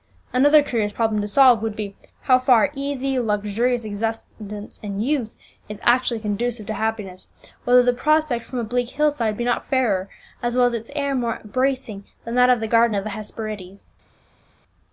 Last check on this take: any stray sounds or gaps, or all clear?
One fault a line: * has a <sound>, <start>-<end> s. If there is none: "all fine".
all fine